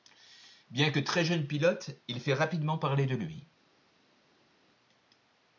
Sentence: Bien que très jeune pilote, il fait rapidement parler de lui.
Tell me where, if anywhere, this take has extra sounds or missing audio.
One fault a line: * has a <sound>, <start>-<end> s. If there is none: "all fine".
all fine